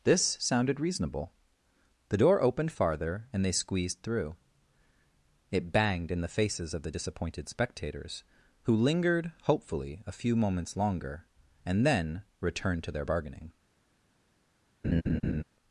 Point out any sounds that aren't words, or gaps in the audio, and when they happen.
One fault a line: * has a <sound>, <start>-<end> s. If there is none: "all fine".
* has a laugh, 14.8-15.4 s